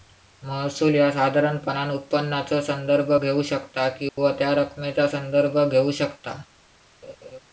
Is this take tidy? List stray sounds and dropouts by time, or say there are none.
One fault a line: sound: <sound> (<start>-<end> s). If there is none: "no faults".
sound: dropout (4.1-4.2 s)
sound: laugh (7.0-7.4 s)